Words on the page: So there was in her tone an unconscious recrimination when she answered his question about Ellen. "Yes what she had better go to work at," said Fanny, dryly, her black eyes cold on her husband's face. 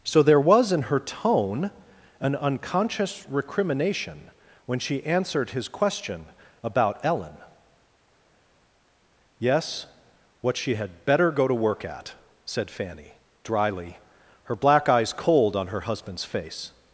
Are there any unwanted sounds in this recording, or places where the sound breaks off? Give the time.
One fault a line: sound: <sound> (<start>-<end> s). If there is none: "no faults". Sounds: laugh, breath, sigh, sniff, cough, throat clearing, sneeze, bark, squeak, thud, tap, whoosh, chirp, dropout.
no faults